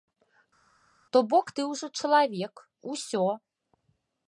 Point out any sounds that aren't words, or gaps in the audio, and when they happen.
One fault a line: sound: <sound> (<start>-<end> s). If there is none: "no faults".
no faults